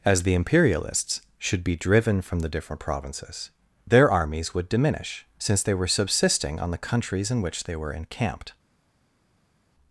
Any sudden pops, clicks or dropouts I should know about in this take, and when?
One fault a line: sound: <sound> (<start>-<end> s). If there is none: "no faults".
no faults